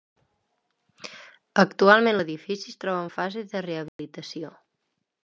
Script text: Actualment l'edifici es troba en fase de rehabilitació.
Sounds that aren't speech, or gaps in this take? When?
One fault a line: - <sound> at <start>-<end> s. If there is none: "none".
- dropout at 3.9-4.0 s